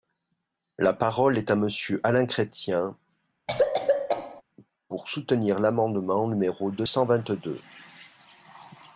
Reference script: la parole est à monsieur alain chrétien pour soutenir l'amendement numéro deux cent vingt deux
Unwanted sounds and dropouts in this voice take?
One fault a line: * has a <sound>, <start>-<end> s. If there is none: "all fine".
* has a cough, 3.5-4.4 s